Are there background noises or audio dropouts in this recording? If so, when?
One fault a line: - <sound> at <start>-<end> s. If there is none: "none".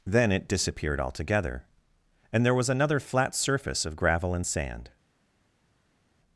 none